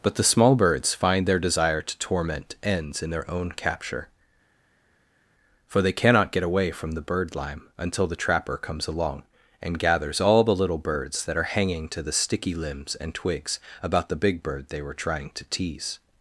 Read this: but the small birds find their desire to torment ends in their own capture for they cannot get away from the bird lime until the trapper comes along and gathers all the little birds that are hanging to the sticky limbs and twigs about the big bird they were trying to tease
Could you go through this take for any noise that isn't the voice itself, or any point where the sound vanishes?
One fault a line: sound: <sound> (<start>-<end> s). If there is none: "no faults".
no faults